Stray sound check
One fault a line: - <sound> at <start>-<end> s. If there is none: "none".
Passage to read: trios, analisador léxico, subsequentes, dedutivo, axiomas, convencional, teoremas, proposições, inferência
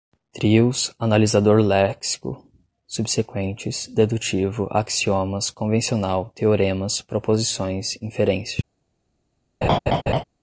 - laugh at 9.6-10.2 s